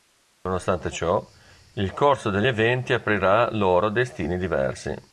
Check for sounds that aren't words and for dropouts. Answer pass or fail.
pass